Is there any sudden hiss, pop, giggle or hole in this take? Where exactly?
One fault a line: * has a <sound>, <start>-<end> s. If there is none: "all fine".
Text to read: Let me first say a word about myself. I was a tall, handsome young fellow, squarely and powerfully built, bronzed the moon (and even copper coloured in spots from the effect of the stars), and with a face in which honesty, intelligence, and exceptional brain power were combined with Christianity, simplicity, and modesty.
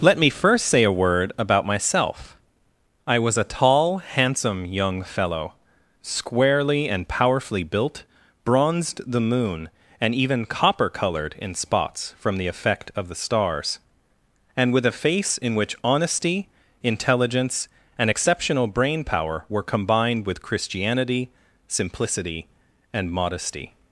all fine